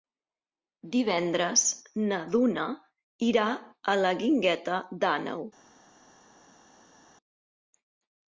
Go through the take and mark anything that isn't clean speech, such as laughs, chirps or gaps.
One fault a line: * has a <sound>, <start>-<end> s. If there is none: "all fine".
all fine